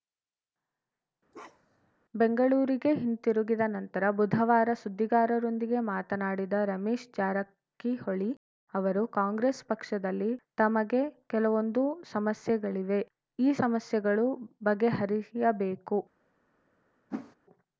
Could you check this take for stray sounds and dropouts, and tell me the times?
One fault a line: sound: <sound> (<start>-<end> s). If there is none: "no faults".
sound: bark (1.3-1.9 s)
sound: whoosh (17.1-17.4 s)